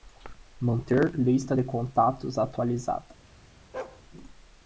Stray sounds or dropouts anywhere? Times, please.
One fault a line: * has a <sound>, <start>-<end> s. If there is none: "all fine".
* has a bark, 3.7-4.0 s